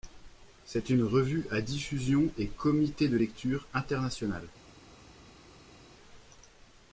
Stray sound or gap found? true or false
false